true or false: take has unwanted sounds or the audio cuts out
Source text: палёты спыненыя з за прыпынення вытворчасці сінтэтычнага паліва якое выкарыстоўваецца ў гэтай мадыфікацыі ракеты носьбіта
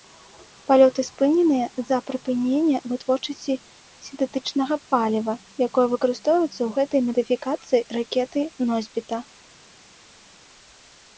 false